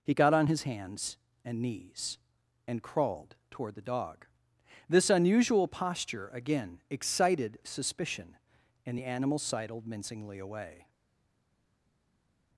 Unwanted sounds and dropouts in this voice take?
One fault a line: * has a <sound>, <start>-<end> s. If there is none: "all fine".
all fine